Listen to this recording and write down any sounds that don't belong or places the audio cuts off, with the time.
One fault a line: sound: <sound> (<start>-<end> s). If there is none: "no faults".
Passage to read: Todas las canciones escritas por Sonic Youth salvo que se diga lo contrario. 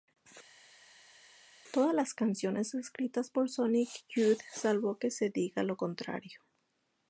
no faults